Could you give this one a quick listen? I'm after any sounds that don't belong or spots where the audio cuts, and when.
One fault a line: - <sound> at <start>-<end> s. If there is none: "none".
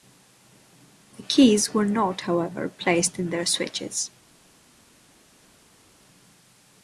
none